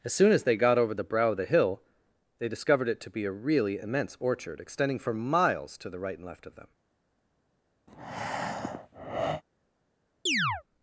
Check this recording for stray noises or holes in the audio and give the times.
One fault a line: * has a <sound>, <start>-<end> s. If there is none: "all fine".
* has a breath, 7.9-9.4 s
* has a chirp, 10.3-10.6 s